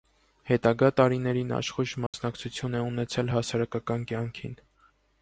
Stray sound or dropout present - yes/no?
yes